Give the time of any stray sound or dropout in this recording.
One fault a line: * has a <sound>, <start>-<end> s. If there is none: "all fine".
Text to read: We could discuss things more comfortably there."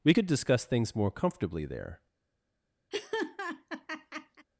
* has a laugh, 2.9-4.5 s